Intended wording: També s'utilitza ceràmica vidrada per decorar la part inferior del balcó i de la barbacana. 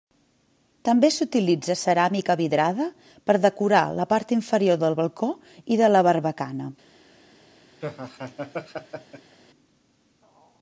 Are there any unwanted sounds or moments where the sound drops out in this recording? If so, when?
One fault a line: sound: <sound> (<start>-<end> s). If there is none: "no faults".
sound: laugh (7.8-9.4 s)